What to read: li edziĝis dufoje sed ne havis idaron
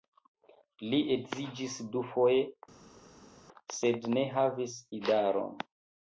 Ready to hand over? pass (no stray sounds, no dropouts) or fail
pass